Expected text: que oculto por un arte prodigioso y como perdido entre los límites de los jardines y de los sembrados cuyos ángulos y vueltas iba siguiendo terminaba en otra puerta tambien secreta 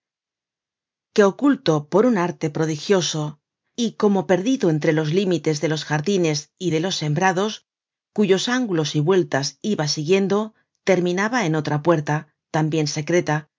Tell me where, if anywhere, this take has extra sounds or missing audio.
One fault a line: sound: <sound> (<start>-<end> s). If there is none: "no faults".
no faults